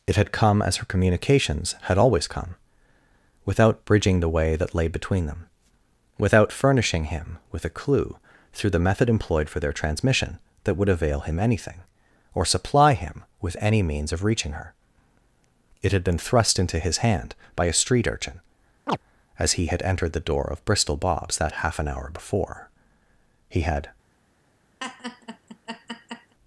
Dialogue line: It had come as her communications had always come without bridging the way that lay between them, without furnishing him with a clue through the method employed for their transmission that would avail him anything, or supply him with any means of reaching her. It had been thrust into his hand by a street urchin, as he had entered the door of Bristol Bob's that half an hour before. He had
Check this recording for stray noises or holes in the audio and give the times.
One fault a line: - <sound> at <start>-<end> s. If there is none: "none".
- chirp at 18.9-19.0 s
- laugh at 24.8-26.3 s